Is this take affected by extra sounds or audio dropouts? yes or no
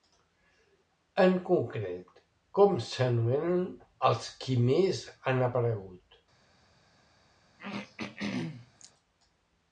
yes